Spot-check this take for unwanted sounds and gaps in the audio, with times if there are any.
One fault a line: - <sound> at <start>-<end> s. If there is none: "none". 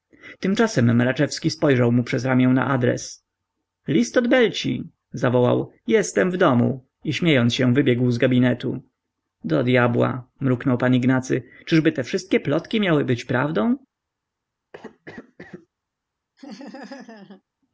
- cough at 14.7-15.7 s
- laugh at 16.4-17.4 s